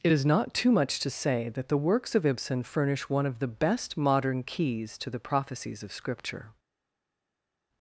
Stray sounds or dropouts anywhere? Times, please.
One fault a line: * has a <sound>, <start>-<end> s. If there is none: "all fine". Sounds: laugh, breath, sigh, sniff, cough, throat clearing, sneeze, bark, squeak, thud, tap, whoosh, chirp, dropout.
all fine